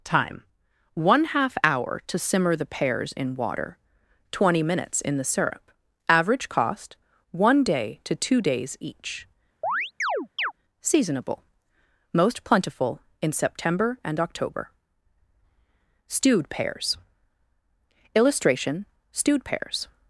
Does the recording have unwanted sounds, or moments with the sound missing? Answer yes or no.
yes